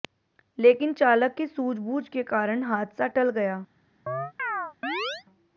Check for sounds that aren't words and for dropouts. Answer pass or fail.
fail